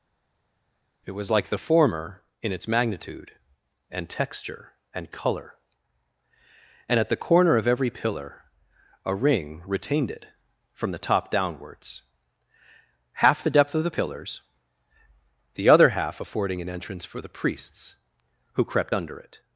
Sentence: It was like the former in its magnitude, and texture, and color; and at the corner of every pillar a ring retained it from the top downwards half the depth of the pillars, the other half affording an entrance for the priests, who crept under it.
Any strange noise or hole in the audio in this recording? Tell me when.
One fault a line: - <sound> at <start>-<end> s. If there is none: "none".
none